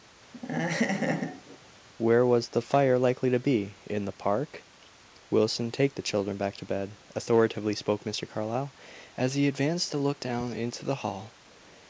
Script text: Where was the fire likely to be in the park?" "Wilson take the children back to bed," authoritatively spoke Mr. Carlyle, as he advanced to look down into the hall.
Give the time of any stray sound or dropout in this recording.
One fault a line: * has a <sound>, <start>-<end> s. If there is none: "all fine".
* has a laugh, 0.3-1.6 s